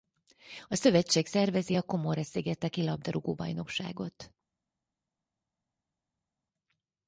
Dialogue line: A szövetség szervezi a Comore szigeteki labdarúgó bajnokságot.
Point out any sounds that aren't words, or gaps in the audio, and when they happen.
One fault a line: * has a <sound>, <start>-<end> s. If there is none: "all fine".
all fine